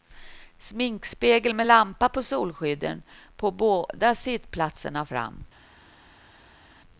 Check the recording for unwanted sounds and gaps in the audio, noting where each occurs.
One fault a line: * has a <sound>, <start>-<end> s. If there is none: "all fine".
all fine